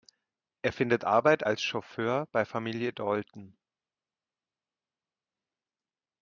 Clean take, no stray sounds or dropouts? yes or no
yes